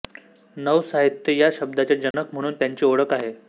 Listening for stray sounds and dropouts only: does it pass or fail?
fail